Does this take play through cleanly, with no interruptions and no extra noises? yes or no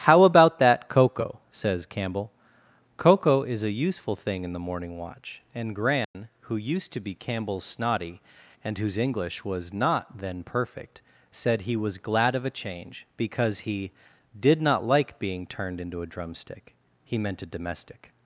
no